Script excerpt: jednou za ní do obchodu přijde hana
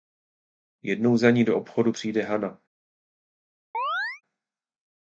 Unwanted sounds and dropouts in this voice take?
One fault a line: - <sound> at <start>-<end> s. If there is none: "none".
- chirp at 3.7-4.2 s